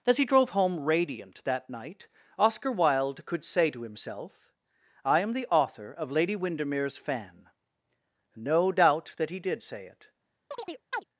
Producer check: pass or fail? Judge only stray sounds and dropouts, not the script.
fail